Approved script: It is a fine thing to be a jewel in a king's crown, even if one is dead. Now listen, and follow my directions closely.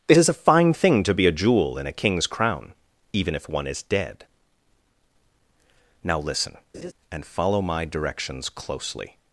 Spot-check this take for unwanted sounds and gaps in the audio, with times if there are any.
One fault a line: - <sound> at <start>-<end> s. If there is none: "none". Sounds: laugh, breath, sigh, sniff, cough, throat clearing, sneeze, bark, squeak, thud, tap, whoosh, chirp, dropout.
- laugh at 6.7-6.9 s